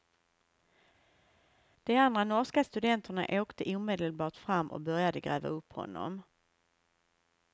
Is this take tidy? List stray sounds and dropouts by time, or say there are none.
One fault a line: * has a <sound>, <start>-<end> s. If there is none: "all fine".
all fine